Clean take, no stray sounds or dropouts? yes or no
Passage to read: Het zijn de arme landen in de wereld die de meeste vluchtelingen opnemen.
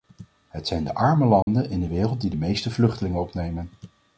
no